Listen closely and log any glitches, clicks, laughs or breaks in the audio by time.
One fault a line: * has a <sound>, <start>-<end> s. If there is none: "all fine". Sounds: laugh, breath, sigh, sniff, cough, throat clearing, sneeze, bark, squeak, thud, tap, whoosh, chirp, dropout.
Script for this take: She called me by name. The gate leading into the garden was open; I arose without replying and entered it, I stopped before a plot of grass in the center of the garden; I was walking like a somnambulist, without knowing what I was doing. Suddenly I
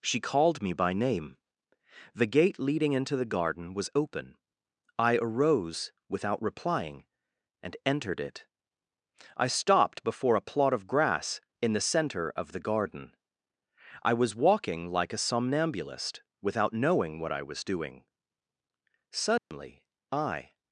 * has a dropout, 19.4-19.5 s